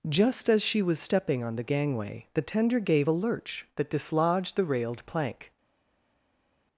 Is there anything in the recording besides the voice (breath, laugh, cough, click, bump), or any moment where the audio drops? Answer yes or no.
no